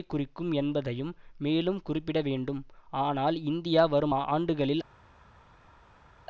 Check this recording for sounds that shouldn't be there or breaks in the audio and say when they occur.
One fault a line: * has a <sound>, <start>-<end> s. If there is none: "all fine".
all fine